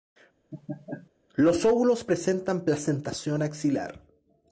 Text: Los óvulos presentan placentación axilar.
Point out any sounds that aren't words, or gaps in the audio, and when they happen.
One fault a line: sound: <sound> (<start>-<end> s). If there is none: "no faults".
sound: laugh (0.5-1.1 s)